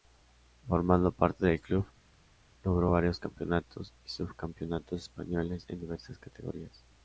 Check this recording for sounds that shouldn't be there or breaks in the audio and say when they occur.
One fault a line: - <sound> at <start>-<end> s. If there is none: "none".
none